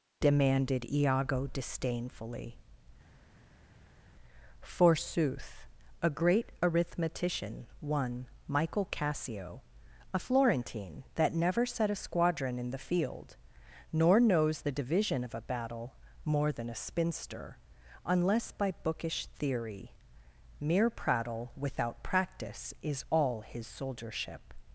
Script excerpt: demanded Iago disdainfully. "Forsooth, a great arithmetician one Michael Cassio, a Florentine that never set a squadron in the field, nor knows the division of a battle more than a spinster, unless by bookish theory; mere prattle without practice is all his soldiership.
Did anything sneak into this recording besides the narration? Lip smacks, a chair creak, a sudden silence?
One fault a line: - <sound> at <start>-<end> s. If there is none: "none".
none